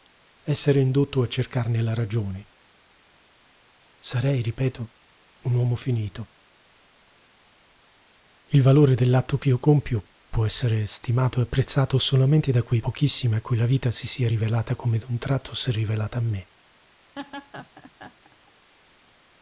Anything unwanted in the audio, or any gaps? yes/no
yes